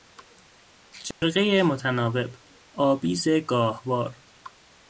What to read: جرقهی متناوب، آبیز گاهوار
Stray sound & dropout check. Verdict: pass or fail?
fail